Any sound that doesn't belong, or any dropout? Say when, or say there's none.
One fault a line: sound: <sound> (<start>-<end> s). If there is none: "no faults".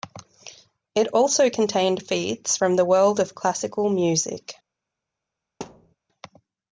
sound: thud (5.6-6.0 s)